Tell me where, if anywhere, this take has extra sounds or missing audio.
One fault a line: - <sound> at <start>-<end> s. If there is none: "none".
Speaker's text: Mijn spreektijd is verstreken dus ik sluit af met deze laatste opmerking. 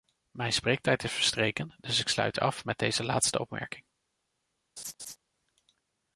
- laugh at 4.8-5.2 s